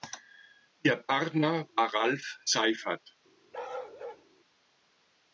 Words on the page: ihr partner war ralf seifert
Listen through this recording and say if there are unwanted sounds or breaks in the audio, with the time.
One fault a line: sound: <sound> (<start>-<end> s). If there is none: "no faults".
sound: bark (3.5-4.2 s)